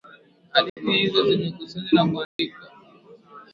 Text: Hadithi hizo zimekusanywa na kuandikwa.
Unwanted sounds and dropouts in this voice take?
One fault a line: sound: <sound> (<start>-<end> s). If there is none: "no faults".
sound: dropout (0.7-0.8 s)
sound: dropout (2.2-2.4 s)